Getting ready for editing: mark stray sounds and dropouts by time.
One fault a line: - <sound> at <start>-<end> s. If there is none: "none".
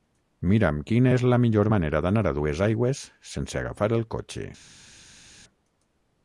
none